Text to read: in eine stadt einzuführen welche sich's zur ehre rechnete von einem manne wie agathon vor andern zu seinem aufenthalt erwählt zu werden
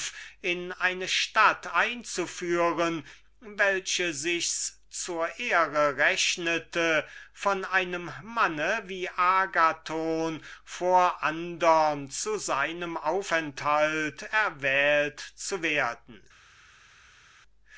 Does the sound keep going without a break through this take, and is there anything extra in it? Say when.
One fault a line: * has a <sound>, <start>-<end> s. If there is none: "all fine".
all fine